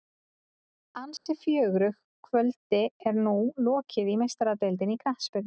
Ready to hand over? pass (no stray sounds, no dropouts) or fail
fail